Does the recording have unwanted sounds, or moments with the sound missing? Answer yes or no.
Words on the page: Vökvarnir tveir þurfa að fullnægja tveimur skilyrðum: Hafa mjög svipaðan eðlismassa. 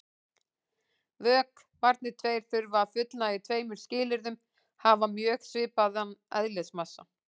no